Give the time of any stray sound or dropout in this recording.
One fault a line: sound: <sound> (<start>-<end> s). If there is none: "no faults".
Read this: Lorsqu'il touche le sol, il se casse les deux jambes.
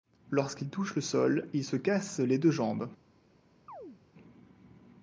sound: chirp (3.7-4.0 s)